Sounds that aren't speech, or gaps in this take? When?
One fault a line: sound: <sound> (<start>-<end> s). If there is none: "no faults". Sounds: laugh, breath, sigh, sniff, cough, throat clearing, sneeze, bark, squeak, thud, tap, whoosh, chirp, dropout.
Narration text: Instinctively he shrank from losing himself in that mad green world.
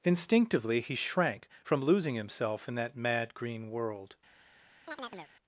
sound: chirp (4.9-5.3 s)